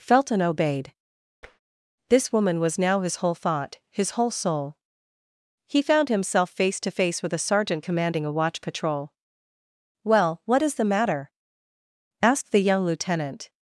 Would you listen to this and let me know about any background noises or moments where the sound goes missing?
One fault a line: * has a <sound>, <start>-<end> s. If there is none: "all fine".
* has a tap, 1.4-1.6 s